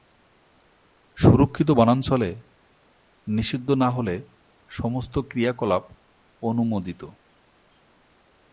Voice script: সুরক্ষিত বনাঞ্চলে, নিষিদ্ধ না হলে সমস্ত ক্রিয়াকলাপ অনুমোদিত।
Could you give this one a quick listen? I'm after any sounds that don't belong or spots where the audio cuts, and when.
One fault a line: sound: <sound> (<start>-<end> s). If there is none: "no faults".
no faults